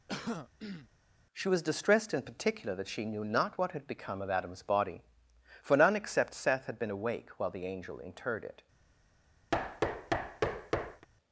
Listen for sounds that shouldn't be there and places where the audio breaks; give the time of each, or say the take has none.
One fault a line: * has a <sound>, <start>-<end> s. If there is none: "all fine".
* has a throat clearing, 0.1-0.9 s
* has a thud, 9.5-11.1 s